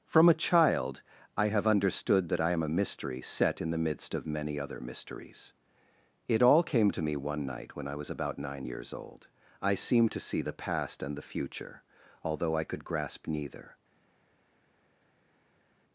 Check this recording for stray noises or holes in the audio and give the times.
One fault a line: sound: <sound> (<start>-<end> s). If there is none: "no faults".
no faults